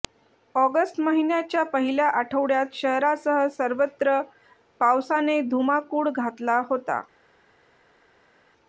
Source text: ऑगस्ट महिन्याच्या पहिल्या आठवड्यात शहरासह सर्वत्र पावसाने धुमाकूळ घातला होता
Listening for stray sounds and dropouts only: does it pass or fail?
pass